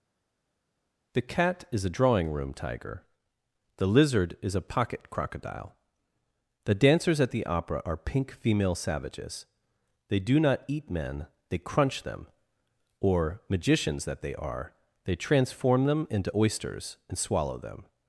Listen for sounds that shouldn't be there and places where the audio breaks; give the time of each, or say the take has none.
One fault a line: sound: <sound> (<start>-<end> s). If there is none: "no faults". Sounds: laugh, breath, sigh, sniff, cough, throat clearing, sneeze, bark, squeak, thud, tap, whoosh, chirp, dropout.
no faults